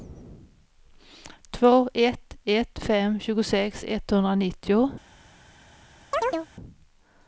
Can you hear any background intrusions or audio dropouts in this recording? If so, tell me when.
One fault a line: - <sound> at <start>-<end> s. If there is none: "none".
- chirp at 6.1-6.5 s